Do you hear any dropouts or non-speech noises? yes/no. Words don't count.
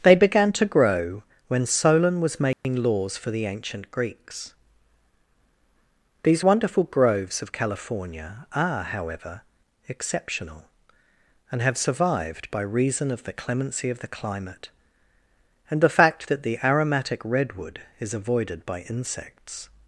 yes